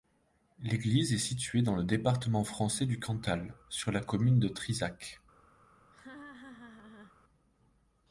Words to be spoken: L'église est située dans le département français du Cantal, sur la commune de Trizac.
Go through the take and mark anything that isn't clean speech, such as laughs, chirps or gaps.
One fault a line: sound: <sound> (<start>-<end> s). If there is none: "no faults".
sound: laugh (5.9-7.2 s)